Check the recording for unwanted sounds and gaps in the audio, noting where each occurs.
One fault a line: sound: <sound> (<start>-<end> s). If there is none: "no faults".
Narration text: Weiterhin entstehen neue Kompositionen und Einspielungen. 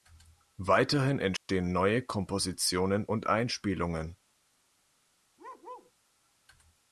sound: dropout (1.4-1.5 s)
sound: bark (5.4-5.9 s)